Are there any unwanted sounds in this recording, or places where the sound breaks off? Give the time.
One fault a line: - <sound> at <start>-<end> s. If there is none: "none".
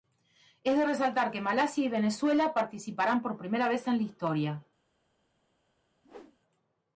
- whoosh at 6.0-6.4 s